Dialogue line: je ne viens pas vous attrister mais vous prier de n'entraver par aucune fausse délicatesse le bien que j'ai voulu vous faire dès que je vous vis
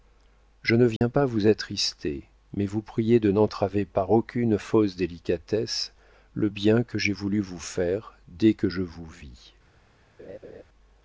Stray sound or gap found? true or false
true